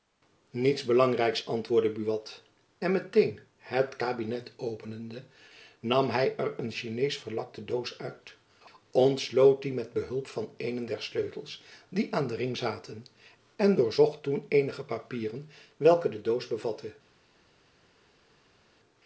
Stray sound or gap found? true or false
false